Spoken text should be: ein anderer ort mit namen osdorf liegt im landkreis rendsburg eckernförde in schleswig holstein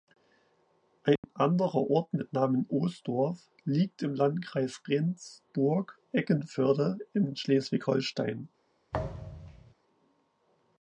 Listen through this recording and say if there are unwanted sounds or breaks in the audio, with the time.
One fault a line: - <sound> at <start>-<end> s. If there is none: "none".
- dropout at 1.2-1.2 s
- thud at 8.9-9.7 s